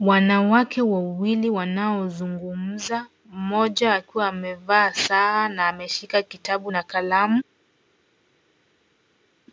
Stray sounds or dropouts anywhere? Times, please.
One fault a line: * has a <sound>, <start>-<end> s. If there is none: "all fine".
all fine